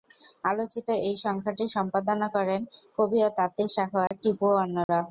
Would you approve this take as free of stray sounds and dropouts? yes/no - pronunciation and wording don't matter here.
no